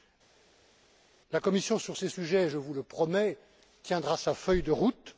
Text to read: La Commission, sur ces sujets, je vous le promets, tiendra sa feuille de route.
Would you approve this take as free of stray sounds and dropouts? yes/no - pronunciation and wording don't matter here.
yes